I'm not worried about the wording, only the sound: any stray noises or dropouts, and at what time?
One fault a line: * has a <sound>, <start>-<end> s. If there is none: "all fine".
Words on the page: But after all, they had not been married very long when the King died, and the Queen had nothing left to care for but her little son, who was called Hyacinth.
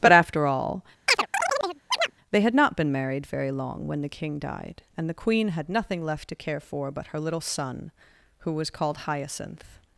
* has a chirp, 1.1-2.1 s